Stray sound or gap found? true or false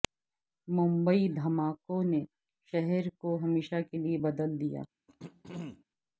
true